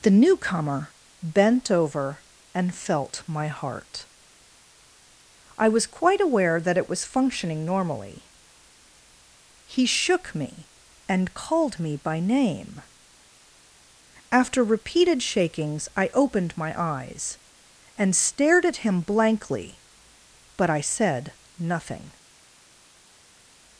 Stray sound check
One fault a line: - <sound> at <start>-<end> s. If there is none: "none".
none